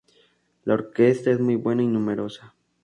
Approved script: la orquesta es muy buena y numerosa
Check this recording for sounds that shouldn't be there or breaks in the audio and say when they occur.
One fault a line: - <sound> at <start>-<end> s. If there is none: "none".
none